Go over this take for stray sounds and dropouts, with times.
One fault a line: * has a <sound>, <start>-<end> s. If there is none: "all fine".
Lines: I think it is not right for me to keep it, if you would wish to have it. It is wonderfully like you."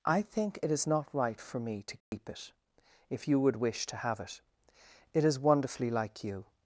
* has a dropout, 2.0-2.1 s